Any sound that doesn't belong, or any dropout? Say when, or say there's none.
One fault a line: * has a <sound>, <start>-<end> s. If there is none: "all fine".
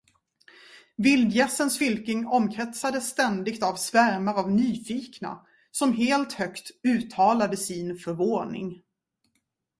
all fine